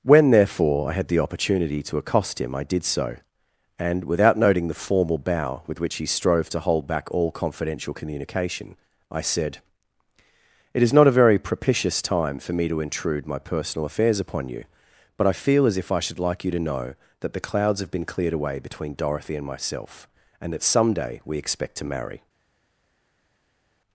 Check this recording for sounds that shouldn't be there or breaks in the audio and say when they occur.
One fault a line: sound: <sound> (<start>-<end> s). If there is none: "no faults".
no faults